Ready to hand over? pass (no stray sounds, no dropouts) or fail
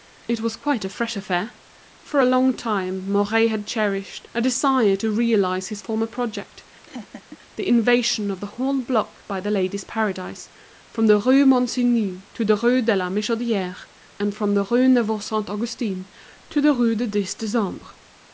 fail